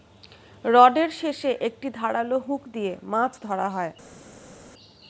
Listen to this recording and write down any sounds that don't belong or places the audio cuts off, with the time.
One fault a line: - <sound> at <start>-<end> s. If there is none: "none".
none